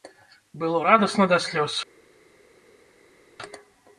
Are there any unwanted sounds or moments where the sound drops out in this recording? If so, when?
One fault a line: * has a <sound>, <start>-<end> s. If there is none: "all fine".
all fine